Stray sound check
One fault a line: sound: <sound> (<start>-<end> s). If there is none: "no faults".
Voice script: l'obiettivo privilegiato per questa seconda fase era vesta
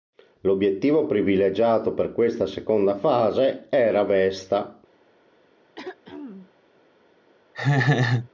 sound: throat clearing (5.8-6.5 s)
sound: laugh (7.5-8.3 s)